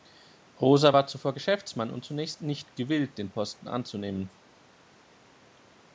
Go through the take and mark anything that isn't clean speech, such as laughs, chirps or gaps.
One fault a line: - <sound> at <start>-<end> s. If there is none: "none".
none